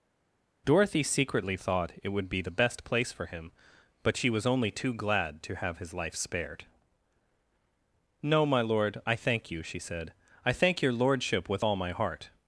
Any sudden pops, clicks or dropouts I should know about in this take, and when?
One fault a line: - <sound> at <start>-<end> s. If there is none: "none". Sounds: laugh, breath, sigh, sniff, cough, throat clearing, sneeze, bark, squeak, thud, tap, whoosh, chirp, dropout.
none